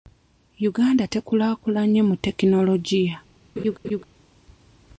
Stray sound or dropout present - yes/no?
yes